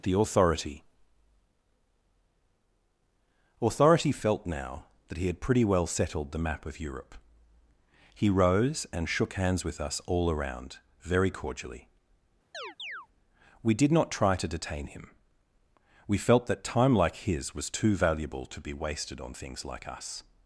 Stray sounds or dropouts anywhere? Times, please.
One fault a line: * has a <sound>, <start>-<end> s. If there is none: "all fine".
* has a chirp, 12.5-13.1 s